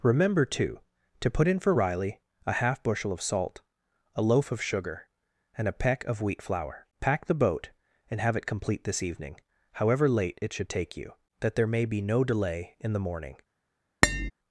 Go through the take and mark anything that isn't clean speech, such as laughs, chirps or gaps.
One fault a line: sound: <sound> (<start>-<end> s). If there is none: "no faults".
sound: tap (14.0-14.3 s)